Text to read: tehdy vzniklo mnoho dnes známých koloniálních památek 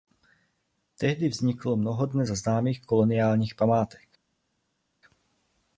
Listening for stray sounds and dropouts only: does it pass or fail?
pass